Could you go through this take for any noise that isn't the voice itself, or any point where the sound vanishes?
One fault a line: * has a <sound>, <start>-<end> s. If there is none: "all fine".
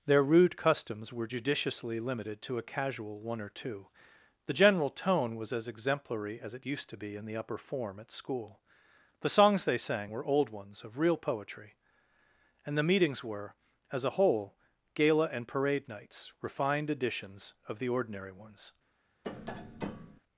* has a tap, 19.2-20.2 s